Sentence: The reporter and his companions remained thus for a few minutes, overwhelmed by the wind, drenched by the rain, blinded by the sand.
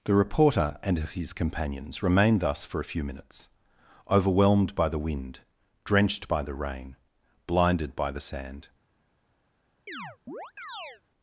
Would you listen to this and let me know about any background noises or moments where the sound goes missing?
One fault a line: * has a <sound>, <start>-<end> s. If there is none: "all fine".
* has a chirp, 9.9-11.0 s